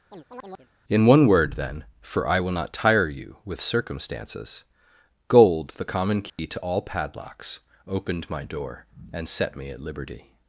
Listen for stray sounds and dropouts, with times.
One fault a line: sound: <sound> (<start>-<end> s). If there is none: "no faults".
sound: chirp (0.1-0.7 s)
sound: dropout (6.3-6.4 s)